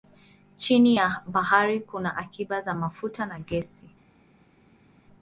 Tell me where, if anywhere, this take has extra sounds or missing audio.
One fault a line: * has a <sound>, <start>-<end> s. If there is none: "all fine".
all fine